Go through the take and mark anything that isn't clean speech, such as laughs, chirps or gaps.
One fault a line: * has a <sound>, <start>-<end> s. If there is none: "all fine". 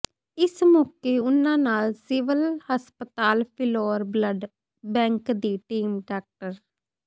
all fine